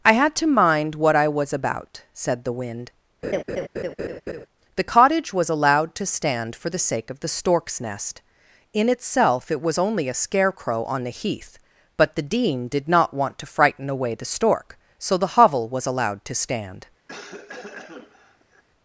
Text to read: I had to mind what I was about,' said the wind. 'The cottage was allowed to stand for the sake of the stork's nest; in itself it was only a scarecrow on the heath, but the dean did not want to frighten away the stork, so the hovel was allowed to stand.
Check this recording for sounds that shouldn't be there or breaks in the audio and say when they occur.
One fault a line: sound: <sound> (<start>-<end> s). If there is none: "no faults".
sound: laugh (3.2-4.5 s)
sound: cough (17.1-18.6 s)